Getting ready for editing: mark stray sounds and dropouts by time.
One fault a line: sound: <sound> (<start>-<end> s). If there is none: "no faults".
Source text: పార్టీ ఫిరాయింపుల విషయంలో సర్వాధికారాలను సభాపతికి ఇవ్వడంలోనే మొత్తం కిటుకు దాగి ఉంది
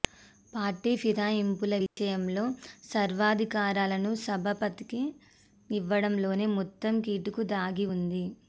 sound: dropout (1.9-2.0 s)